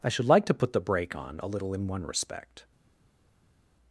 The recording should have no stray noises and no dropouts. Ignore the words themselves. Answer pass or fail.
pass